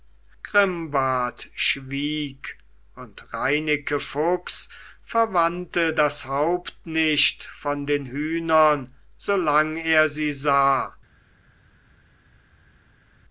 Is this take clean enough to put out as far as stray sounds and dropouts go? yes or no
yes